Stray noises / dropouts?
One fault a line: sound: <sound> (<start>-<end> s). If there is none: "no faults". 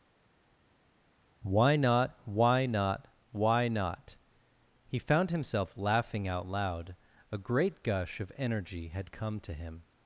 no faults